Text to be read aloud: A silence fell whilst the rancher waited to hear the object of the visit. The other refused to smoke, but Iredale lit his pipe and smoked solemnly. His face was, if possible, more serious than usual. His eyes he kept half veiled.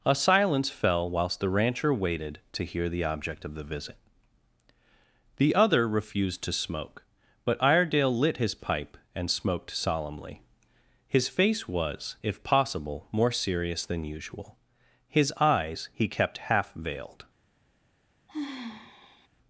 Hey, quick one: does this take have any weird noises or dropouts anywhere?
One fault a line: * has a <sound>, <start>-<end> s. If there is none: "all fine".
* has a sigh, 18.3-19.3 s